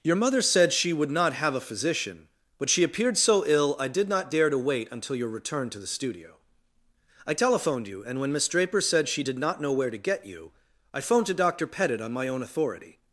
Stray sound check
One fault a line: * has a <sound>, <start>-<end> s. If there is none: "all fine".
all fine